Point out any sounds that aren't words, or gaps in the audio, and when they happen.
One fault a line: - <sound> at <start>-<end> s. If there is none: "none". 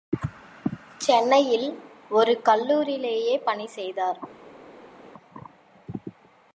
none